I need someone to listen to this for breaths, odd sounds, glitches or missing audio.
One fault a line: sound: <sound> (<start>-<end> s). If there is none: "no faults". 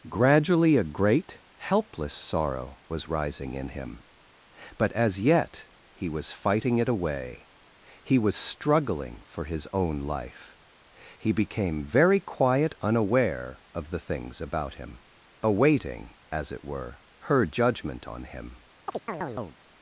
sound: chirp (18.9-19.6 s)